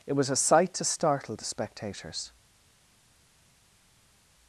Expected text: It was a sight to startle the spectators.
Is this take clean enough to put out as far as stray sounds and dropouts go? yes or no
yes